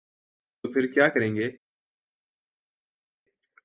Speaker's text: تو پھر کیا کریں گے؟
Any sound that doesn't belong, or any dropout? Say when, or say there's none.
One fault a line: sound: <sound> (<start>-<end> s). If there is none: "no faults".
no faults